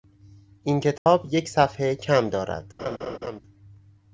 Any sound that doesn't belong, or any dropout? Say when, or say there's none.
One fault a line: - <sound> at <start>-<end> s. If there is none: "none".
- dropout at 1.0-1.1 s
- laugh at 2.8-3.4 s